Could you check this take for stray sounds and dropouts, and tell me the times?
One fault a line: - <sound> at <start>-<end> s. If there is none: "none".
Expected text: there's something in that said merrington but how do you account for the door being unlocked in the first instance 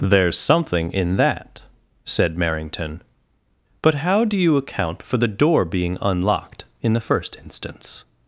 none